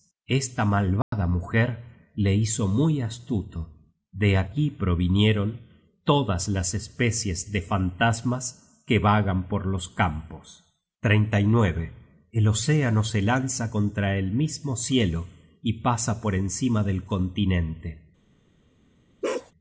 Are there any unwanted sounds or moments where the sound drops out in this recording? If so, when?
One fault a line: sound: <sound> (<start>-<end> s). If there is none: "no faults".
sound: dropout (1.0-1.1 s)
sound: bark (19.2-19.5 s)